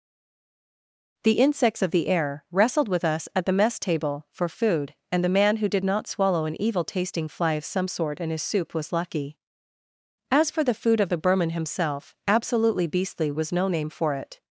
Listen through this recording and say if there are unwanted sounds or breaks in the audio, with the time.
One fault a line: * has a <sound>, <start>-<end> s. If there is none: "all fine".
all fine